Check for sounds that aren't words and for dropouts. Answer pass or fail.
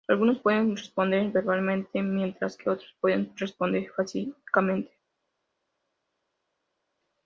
pass